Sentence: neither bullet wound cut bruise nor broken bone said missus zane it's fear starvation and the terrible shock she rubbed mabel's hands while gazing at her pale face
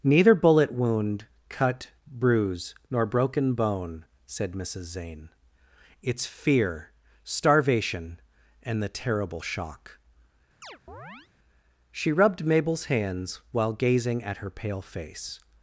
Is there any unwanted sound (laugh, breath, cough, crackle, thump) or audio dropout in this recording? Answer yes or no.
yes